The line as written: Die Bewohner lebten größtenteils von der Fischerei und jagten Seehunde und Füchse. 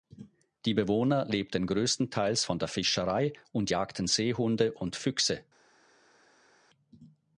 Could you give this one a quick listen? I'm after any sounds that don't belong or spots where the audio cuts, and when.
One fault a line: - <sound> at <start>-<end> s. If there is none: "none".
none